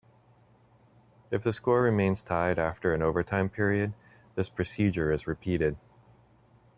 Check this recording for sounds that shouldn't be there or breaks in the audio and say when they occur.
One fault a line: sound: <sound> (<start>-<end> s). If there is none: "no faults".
no faults